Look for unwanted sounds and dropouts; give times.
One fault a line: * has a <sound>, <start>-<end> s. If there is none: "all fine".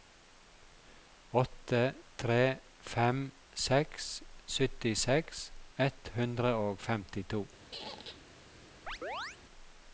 * has a squeak, 7.7-8.2 s
* has a chirp, 8.9-9.4 s